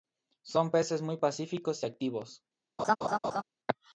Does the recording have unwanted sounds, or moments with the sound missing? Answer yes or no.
yes